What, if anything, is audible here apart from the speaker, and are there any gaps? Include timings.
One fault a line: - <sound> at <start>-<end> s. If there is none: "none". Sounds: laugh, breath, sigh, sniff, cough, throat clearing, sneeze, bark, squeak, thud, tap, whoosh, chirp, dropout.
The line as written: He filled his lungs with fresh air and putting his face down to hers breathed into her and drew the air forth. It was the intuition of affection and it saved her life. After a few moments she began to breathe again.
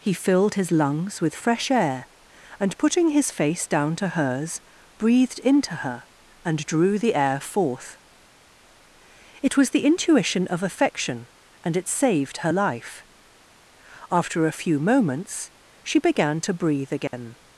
- dropout at 17.1-17.1 s